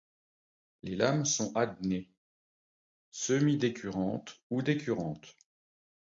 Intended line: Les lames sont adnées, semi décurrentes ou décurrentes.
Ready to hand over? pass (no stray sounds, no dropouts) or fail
pass